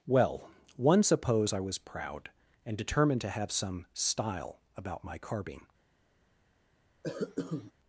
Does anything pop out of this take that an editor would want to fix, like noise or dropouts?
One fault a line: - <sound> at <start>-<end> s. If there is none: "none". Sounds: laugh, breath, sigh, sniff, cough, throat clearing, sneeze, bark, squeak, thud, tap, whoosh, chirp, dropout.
- cough at 7.0-7.7 s